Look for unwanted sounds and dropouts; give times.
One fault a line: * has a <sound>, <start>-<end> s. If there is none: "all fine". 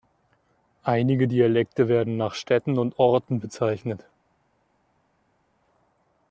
all fine